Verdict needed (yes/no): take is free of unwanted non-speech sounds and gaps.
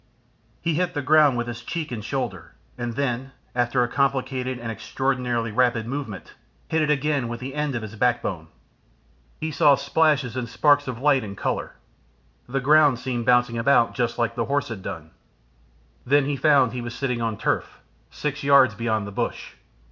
yes